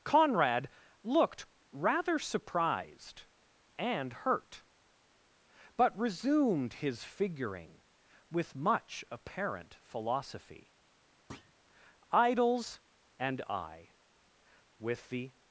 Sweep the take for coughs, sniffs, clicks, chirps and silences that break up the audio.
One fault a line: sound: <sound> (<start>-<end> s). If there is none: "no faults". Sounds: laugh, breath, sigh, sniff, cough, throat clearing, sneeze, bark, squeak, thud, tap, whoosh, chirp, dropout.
sound: thud (11.3-11.5 s)